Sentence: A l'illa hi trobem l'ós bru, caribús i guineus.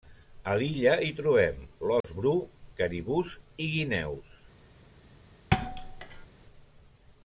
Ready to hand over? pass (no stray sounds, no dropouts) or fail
fail